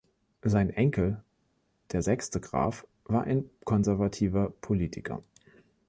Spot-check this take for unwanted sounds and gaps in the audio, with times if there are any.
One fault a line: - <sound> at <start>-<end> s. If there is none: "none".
none